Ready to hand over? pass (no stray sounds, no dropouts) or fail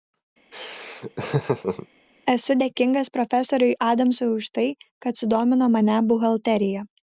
fail